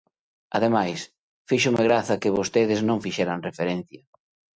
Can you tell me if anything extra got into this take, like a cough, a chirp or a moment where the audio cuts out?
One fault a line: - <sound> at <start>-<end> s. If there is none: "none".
none